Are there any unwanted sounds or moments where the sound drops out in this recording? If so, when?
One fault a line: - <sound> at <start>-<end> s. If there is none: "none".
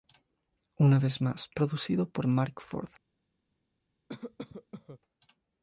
- cough at 4.1-5.0 s